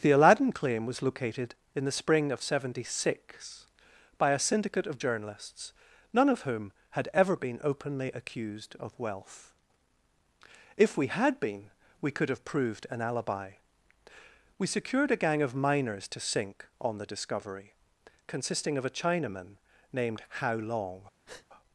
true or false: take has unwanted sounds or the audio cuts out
true